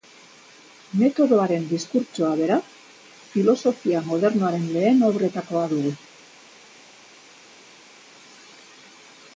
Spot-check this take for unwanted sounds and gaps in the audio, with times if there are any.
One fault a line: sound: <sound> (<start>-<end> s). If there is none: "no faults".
no faults